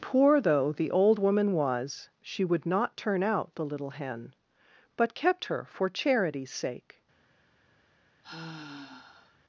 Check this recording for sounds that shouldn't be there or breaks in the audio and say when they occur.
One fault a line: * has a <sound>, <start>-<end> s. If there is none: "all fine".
* has a sigh, 8.2-9.4 s